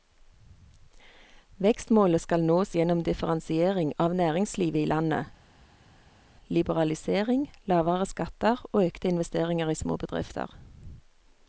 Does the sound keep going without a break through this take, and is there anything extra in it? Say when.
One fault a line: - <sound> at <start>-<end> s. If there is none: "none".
none